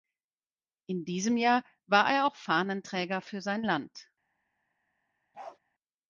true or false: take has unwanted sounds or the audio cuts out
true